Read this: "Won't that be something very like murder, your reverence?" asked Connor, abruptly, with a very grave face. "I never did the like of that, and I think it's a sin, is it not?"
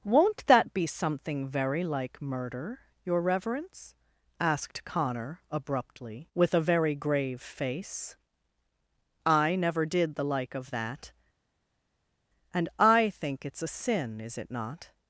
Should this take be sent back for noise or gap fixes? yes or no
no